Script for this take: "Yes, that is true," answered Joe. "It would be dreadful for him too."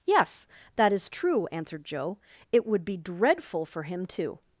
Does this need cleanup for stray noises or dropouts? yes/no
no